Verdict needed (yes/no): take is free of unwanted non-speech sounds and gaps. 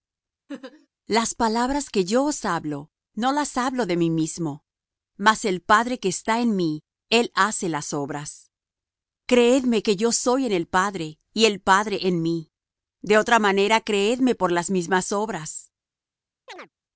no